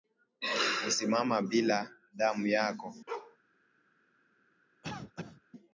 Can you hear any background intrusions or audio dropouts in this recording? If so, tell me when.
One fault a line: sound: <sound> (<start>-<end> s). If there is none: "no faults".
sound: bark (3.1-3.4 s)
sound: cough (4.8-5.4 s)